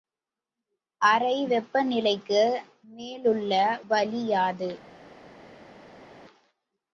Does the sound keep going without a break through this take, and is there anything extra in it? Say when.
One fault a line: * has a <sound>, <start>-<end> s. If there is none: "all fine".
all fine